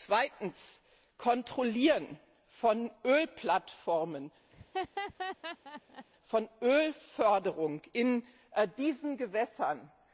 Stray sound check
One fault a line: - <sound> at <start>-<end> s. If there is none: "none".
- laugh at 4.5-6.1 s